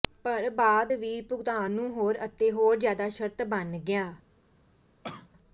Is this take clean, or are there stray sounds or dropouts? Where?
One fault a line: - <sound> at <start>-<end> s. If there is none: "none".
- cough at 5.0-5.3 s